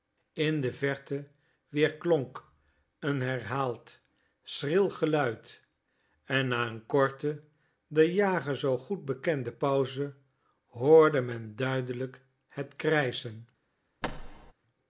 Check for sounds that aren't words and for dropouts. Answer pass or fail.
fail